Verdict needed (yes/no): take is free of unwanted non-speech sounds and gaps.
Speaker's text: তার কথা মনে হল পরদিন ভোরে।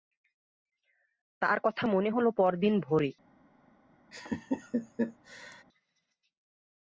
no